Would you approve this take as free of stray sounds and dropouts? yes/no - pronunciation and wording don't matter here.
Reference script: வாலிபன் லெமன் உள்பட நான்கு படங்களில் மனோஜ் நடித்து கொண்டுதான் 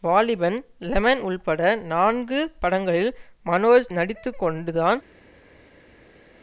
yes